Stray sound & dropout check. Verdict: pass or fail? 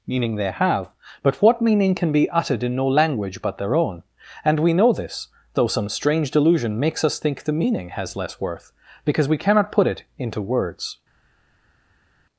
pass